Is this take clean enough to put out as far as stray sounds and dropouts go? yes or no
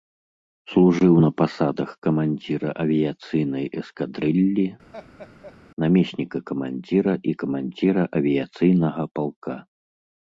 no